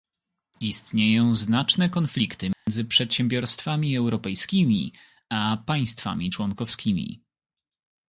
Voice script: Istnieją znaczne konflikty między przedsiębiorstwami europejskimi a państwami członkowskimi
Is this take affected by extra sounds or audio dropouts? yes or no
yes